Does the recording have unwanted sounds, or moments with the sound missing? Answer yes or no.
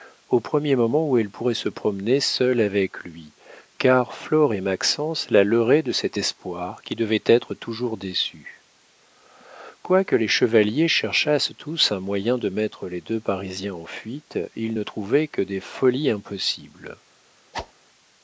yes